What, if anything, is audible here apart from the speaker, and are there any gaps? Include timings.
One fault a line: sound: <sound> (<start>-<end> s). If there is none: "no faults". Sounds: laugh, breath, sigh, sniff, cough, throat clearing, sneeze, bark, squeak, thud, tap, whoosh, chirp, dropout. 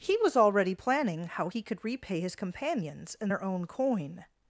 no faults